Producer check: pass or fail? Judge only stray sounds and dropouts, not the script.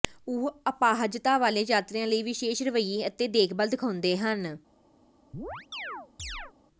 fail